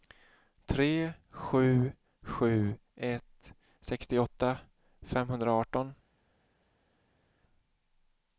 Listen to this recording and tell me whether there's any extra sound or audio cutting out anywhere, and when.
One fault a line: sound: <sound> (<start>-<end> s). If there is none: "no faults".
no faults